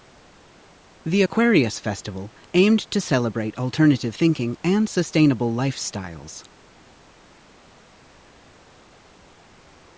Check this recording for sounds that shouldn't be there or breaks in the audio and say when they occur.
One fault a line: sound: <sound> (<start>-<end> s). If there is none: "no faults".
no faults